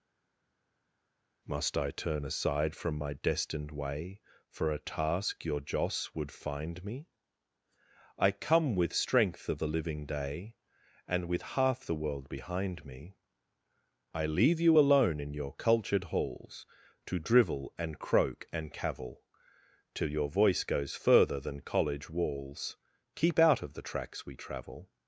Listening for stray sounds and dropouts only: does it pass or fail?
pass